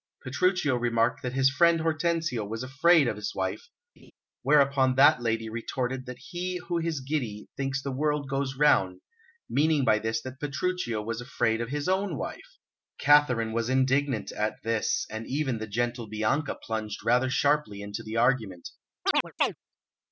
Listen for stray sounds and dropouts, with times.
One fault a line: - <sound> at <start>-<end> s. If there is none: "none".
- laugh at 4.0-4.1 s
- chirp at 19.0-19.6 s